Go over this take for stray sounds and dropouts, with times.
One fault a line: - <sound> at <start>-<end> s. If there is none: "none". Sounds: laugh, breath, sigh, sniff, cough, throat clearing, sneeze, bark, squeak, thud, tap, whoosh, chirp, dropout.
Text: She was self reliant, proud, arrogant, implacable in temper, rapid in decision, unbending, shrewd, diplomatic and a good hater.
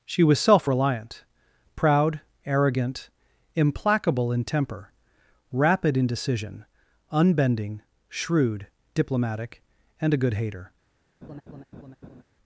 - laugh at 11.2-12.2 s